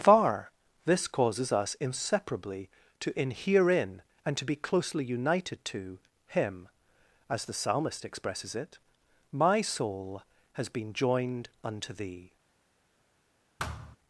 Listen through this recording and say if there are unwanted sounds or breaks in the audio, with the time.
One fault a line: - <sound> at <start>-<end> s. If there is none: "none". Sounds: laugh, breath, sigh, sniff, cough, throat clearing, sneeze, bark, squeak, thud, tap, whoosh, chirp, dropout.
- thud at 13.6-14.0 s